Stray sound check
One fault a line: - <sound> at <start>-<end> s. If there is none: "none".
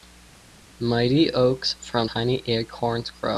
none